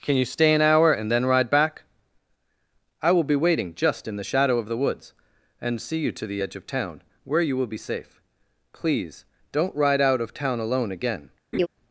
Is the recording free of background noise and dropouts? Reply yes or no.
no